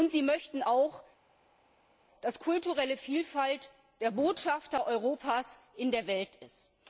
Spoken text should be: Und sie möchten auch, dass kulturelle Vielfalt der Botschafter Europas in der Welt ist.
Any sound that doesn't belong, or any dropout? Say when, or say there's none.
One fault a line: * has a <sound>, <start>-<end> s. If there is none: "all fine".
all fine